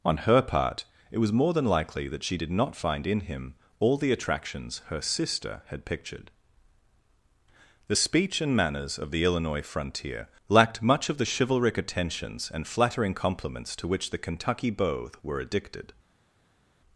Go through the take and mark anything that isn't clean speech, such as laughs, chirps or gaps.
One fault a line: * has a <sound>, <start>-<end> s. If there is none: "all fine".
all fine